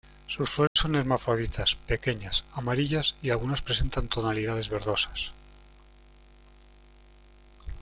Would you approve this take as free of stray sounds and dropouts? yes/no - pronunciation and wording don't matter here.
no